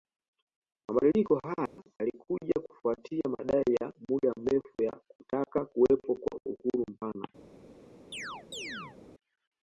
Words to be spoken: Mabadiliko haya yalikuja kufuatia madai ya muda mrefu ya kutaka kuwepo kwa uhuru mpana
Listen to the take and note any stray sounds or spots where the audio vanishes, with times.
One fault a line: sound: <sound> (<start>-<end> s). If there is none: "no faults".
sound: dropout (1.7-1.8 s)
sound: chirp (8.1-9.0 s)